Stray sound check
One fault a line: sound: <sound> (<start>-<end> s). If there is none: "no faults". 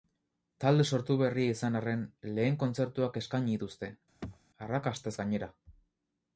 sound: throat clearing (4.2-4.4 s)